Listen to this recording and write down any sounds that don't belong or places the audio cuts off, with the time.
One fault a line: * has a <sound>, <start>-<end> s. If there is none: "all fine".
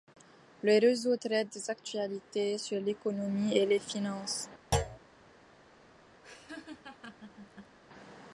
* has a thud, 4.7-5.0 s
* has a laugh, 6.2-7.8 s